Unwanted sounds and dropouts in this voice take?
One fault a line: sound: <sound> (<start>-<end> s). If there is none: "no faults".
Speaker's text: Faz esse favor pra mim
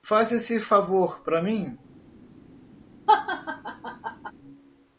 sound: laugh (3.1-4.3 s)